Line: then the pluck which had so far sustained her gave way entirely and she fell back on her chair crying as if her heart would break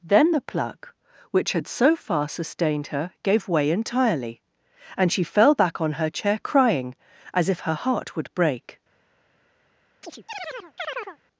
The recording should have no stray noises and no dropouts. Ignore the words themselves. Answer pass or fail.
fail